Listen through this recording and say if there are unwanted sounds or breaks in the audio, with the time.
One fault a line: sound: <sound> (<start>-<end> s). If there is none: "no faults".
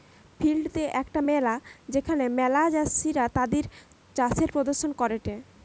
no faults